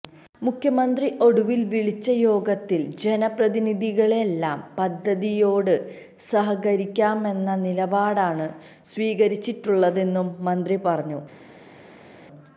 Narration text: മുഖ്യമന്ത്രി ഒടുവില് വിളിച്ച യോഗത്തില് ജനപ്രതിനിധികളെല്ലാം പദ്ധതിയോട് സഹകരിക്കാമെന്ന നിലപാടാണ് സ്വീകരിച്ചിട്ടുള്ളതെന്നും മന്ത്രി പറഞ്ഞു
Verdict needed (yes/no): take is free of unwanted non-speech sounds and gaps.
yes